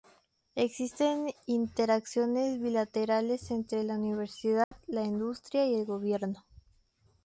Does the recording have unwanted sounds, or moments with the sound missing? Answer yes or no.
yes